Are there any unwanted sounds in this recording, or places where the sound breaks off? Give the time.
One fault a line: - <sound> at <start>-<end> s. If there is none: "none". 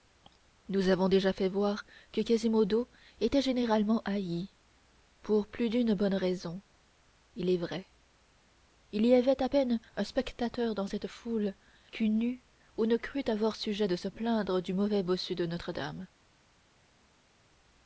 none